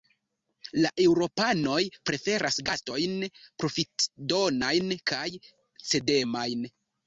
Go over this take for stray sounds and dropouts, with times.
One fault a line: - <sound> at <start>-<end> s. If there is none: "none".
none